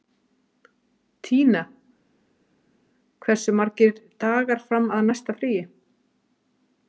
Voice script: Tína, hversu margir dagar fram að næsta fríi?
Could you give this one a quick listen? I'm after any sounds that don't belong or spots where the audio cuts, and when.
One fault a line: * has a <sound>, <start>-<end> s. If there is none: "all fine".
all fine